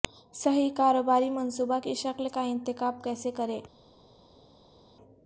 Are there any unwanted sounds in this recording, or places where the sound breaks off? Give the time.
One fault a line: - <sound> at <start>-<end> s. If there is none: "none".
none